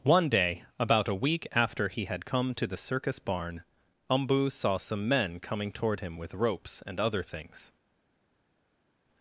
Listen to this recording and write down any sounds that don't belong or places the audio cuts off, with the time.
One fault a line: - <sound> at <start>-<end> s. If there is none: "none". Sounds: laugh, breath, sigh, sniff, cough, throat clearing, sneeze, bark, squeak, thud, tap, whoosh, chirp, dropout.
none